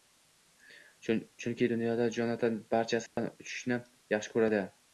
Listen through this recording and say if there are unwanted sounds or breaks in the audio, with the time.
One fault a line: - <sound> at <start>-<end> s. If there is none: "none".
- dropout at 3.1-3.2 s